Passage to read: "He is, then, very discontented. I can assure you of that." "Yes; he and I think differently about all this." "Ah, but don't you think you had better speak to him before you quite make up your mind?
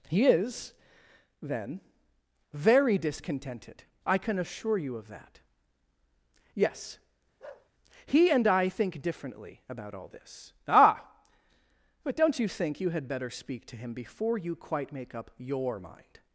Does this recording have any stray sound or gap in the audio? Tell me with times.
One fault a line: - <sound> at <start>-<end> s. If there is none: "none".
- bark at 7.4-7.7 s